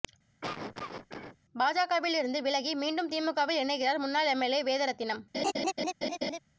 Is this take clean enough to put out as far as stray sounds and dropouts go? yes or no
no